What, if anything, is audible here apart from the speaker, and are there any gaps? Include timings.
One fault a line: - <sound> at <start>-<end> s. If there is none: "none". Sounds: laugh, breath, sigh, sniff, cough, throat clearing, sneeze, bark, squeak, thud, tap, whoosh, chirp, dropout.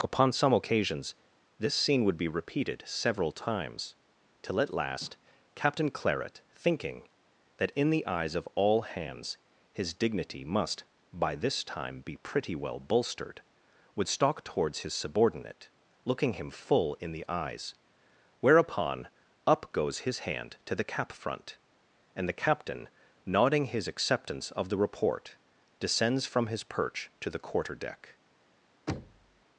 - thud at 28.9-29.4 s